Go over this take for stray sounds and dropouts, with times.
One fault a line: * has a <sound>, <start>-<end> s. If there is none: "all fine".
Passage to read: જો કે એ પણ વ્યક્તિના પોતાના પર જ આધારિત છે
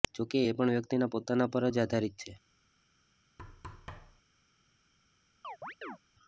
* has a thud, 3.4-4.2 s
* has a chirp, 5.4-6.0 s